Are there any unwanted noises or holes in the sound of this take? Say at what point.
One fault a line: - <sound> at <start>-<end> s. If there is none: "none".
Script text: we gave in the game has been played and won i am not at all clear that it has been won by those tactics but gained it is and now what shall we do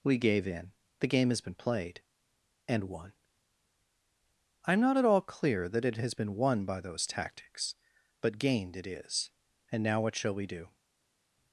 none